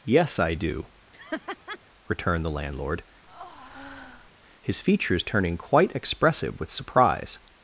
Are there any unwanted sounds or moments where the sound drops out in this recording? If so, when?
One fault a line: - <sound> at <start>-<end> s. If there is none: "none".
- laugh at 1.1-1.8 s
- breath at 3.3-4.3 s